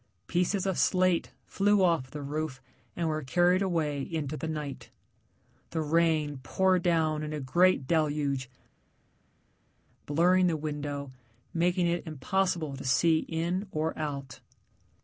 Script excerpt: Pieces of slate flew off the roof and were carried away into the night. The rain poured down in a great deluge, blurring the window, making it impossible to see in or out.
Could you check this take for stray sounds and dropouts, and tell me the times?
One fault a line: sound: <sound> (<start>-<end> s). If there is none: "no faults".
no faults